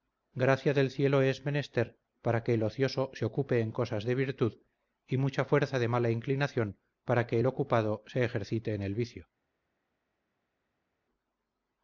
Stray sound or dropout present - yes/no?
no